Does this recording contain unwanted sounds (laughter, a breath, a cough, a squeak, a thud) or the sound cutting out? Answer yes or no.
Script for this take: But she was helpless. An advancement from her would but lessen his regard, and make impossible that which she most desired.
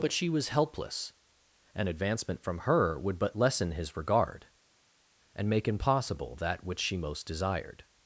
no